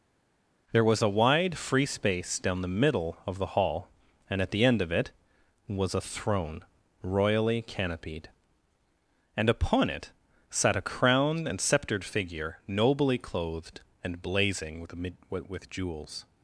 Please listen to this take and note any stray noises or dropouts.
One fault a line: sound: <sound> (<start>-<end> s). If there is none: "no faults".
no faults